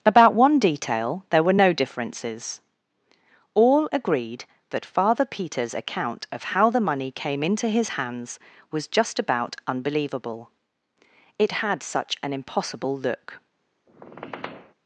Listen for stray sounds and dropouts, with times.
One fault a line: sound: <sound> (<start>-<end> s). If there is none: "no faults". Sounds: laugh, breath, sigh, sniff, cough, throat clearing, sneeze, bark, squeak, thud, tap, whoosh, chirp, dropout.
sound: squeak (13.9-14.7 s)